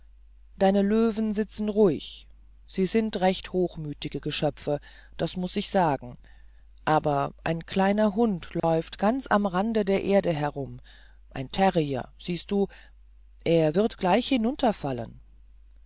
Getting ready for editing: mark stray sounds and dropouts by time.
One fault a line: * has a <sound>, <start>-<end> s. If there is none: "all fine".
* has a dropout, 8.6-8.6 s